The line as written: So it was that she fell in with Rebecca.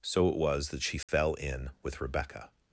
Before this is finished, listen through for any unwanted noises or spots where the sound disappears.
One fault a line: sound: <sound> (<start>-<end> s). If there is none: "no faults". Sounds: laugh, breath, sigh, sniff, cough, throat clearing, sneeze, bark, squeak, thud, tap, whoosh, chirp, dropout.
sound: dropout (1.0-1.1 s)